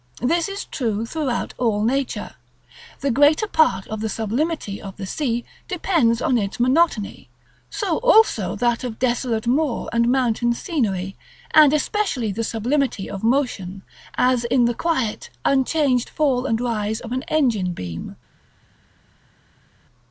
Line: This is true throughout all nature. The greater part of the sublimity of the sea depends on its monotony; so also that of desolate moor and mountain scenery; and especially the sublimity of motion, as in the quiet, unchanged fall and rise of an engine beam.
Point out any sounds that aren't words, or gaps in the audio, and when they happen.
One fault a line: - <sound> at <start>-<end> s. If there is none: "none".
none